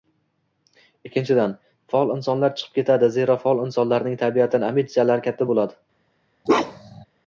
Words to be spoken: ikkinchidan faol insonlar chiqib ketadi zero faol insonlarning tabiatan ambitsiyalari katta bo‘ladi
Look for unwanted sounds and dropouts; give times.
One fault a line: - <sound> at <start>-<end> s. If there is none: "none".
- bark at 6.5-7.1 s